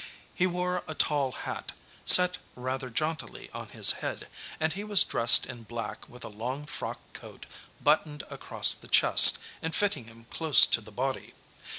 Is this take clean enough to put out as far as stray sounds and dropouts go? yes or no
yes